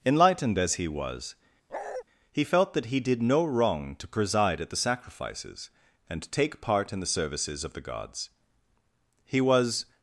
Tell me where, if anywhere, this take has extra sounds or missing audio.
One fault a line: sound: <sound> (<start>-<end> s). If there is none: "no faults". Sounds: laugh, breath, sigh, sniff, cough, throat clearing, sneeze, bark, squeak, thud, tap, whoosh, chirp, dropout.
sound: bark (1.7-2.0 s)